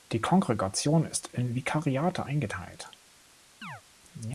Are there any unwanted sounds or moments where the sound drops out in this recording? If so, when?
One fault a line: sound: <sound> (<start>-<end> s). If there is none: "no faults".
sound: chirp (3.6-3.8 s)